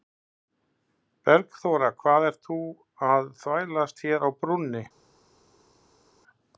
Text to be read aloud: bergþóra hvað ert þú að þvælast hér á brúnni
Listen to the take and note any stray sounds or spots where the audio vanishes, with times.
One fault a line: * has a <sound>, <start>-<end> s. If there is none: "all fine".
all fine